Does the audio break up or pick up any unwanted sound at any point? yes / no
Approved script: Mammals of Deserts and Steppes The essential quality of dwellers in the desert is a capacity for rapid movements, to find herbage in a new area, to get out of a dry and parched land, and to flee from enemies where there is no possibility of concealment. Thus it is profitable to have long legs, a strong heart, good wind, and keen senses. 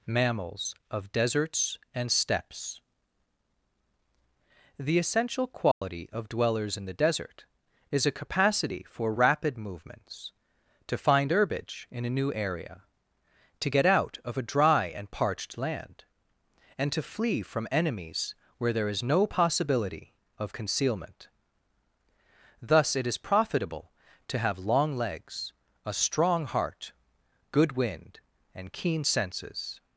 yes